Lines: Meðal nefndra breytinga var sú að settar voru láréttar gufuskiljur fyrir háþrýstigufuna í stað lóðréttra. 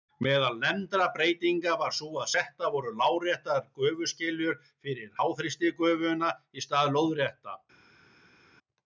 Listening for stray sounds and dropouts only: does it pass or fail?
pass